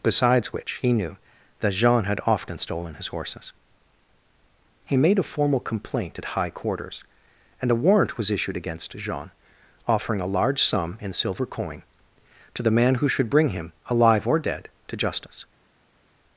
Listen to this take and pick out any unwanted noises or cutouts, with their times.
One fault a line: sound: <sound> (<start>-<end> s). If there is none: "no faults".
no faults